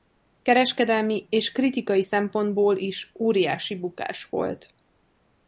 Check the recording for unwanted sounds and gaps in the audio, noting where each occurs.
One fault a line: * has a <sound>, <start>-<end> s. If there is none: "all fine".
all fine